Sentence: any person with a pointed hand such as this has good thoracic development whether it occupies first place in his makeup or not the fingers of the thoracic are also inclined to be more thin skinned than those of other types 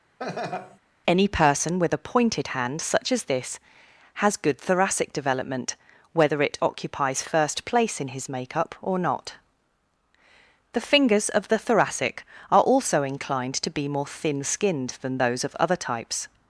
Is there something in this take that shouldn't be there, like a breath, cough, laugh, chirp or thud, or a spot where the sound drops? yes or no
yes